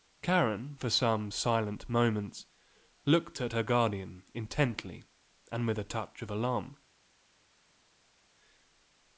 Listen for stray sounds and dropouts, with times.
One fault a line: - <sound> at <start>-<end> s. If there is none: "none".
none